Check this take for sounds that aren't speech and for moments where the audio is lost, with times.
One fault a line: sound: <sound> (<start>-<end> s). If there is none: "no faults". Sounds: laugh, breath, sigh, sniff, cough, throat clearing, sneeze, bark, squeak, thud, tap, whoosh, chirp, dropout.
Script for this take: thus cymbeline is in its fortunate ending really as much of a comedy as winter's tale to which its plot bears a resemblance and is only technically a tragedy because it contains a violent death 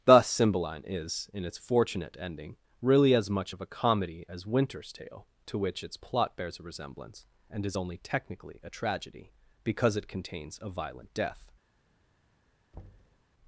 sound: thud (12.7-13.2 s)